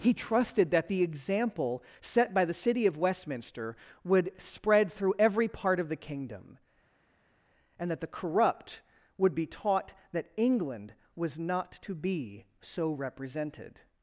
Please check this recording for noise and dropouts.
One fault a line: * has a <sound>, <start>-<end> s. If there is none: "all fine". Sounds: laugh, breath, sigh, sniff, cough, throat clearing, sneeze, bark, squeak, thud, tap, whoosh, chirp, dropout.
all fine